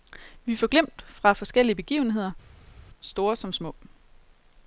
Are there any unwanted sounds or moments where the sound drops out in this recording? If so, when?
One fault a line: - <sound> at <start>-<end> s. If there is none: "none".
none